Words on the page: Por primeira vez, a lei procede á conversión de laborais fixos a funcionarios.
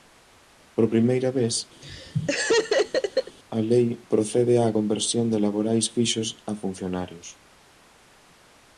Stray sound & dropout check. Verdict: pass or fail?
fail